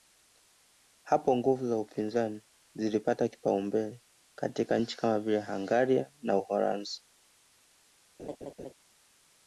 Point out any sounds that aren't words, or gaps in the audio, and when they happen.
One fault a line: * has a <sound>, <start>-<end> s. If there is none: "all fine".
* has a laugh, 8.2-8.7 s